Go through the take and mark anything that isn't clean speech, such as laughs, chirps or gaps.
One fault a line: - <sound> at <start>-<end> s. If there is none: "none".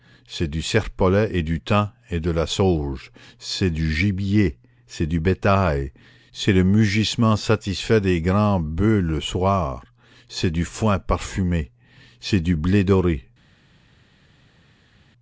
none